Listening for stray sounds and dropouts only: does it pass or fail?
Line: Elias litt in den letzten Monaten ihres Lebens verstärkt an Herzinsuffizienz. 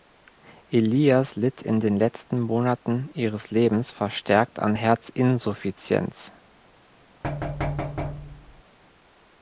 fail